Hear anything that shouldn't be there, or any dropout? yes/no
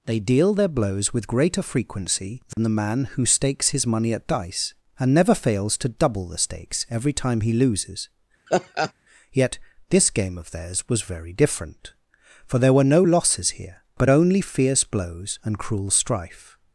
yes